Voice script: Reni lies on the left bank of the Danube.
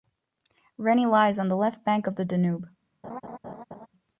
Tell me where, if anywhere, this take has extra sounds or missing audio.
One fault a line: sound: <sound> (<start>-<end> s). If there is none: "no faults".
sound: laugh (3.0-3.9 s)